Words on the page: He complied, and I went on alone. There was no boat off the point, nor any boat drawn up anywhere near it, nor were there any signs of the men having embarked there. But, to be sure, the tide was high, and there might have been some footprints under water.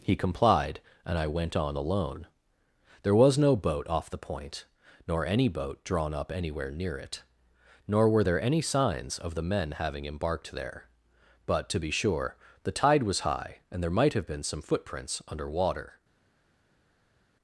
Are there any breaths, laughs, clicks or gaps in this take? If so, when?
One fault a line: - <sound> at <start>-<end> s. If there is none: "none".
none